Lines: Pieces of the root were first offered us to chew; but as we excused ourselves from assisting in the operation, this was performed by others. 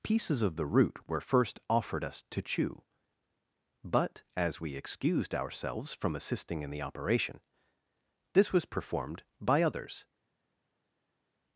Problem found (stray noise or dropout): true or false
false